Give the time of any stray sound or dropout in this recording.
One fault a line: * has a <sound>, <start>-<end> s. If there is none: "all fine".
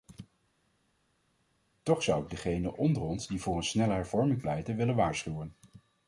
all fine